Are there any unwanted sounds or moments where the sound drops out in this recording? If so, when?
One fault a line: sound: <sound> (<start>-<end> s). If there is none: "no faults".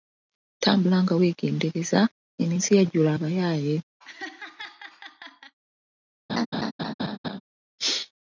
sound: laugh (4.0-5.5 s)
sound: laugh (6.3-7.4 s)